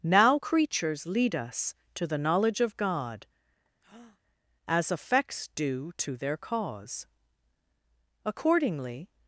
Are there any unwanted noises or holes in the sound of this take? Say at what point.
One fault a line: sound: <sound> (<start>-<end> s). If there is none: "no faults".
sound: breath (3.8-4.2 s)